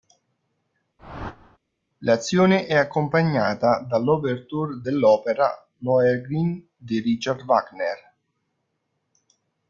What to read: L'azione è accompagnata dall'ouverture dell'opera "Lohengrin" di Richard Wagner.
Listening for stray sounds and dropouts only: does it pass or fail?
fail